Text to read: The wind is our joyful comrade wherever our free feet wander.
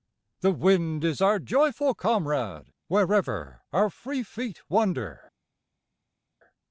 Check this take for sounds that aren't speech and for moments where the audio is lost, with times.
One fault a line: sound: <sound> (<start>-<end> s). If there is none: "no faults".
no faults